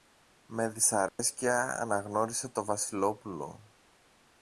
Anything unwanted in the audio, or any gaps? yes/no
yes